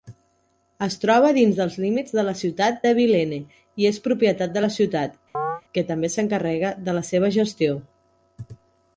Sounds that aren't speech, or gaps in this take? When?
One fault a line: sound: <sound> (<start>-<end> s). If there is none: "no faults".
sound: chirp (5.3-5.6 s)